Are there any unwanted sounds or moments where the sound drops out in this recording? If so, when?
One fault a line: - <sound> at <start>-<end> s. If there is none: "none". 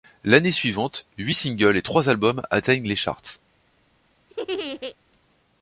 - laugh at 4.3-5.0 s